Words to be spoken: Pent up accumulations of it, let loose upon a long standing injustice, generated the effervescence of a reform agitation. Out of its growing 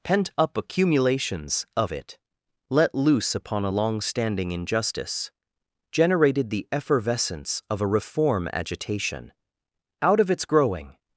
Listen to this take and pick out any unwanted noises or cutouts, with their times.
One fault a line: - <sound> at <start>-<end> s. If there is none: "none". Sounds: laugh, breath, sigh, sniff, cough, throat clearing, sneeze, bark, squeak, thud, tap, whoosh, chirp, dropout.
none